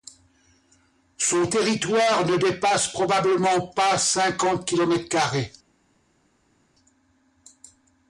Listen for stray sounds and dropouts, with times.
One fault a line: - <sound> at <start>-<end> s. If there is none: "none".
none